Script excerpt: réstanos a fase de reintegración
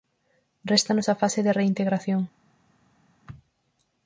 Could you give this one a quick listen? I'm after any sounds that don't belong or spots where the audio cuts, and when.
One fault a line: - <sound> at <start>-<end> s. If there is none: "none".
none